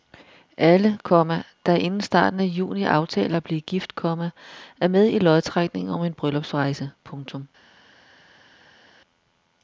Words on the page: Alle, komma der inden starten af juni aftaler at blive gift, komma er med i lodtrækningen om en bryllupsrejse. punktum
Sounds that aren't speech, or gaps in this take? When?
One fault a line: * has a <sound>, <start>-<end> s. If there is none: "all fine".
all fine